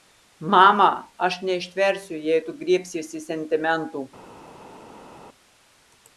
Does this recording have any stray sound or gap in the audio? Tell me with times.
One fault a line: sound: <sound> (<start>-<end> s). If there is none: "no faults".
no faults